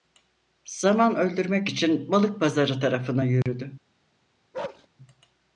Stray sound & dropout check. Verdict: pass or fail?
fail